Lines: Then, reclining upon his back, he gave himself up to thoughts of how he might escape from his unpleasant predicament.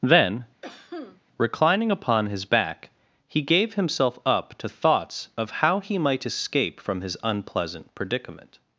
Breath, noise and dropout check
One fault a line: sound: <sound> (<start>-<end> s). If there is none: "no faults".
sound: cough (0.6-1.2 s)